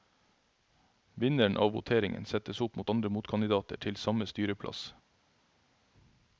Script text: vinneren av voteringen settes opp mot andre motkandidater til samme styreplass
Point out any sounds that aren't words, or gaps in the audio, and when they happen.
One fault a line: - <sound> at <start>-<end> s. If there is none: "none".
none